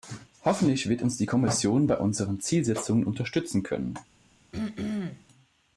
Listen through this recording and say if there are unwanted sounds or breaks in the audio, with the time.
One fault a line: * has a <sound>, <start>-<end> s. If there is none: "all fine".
* has a throat clearing, 4.5-5.3 s